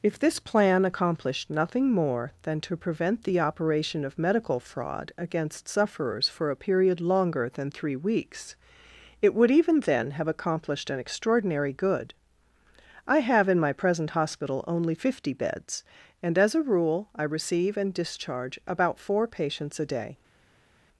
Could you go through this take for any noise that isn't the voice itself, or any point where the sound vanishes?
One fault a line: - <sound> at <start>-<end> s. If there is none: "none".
none